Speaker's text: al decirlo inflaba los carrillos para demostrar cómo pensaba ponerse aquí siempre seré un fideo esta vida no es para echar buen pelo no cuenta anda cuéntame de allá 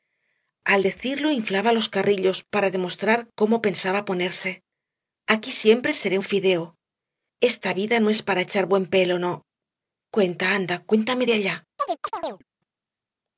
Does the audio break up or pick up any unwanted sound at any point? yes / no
yes